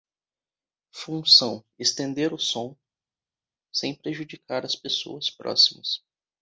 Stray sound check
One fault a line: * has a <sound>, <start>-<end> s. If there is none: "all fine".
all fine